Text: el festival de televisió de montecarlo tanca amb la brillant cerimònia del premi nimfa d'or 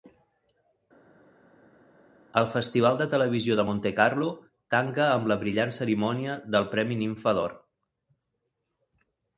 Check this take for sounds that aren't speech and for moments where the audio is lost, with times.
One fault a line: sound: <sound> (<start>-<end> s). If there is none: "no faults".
no faults